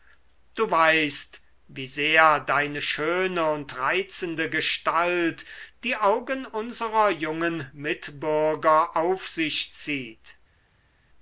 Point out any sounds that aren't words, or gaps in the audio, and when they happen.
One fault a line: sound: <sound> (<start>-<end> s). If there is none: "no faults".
no faults